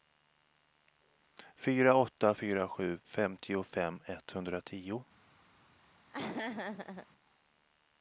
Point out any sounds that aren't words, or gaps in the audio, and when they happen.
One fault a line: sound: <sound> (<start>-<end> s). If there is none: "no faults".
sound: laugh (6.1-7.1 s)